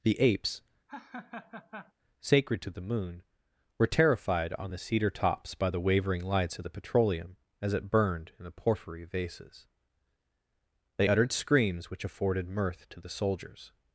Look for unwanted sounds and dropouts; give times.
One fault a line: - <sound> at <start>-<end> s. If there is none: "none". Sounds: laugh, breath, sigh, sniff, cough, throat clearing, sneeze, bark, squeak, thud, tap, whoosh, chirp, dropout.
- laugh at 0.9-1.9 s